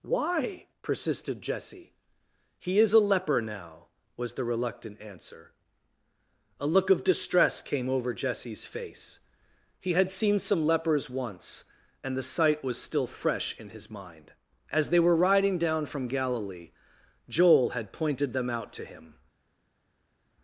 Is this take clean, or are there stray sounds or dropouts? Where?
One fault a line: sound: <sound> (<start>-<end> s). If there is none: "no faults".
no faults